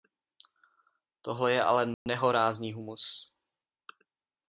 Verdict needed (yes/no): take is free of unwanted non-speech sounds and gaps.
no